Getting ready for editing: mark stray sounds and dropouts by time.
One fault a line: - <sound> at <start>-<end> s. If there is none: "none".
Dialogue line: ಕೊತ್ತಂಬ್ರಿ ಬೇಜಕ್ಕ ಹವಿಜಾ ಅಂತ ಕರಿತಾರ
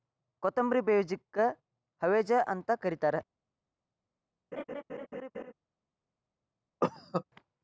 - laugh at 4.5-5.5 s
- cough at 6.8-7.2 s